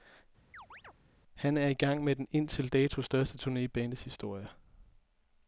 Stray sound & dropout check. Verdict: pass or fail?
fail